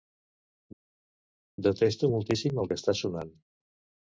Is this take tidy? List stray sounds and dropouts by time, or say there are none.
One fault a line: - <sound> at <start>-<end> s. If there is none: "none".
none